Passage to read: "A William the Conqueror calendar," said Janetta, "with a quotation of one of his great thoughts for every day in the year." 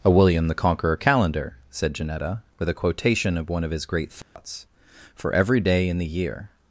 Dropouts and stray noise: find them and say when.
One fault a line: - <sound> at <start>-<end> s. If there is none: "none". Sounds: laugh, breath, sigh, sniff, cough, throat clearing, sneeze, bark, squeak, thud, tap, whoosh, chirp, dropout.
- dropout at 4.2-4.4 s